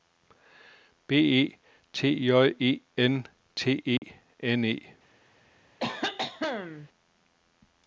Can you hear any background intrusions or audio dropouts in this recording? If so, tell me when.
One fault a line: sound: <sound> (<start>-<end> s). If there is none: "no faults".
sound: dropout (4.0-4.0 s)
sound: cough (5.8-6.9 s)